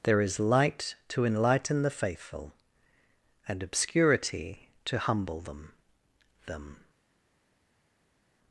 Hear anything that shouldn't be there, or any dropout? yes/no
no